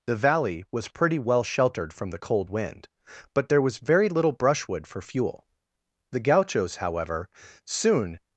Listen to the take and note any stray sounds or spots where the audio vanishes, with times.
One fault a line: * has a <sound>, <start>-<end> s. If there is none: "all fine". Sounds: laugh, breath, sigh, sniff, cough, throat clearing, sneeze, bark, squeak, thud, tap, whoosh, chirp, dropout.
all fine